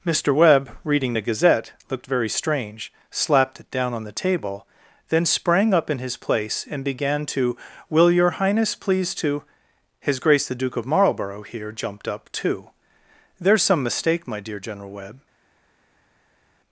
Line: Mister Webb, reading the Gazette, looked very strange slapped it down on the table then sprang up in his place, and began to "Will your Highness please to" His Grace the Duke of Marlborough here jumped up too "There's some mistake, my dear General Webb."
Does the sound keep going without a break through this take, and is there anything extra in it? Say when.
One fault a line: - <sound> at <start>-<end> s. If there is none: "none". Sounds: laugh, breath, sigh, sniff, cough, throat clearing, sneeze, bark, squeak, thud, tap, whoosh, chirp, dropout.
none